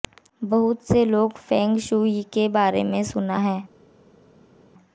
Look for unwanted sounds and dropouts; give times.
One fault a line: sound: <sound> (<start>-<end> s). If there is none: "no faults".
no faults